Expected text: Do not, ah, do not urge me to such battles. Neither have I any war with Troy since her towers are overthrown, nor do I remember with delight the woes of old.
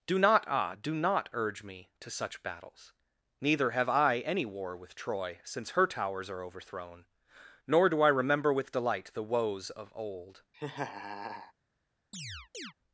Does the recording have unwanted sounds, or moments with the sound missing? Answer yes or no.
yes